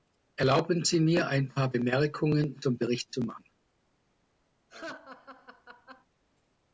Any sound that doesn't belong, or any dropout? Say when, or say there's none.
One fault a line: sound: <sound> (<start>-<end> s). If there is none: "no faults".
sound: laugh (4.7-6.1 s)